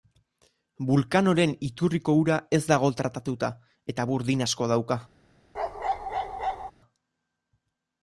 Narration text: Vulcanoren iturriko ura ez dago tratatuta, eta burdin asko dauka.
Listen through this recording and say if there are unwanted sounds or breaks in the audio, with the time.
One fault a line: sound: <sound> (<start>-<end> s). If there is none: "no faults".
sound: bark (5.5-6.7 s)